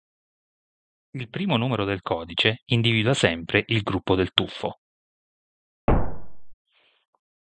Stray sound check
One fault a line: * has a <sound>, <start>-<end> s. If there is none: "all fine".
* has a thud, 5.9-6.5 s